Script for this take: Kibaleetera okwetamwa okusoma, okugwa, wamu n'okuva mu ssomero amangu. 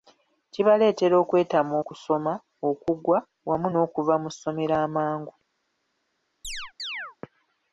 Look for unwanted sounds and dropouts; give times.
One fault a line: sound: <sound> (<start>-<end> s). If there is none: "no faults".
sound: chirp (6.4-7.2 s)